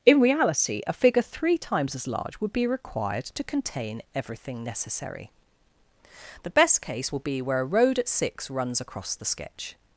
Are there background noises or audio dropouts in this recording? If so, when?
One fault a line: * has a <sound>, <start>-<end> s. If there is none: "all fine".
all fine